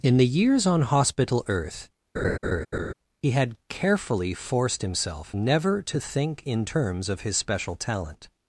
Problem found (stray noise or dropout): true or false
true